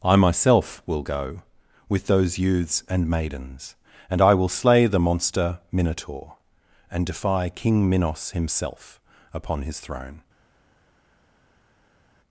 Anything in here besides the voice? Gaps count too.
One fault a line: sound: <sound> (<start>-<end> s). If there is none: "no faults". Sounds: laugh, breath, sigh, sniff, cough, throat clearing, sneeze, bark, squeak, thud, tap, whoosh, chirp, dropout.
no faults